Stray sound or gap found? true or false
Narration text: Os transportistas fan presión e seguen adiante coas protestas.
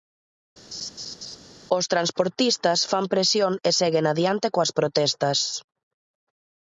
true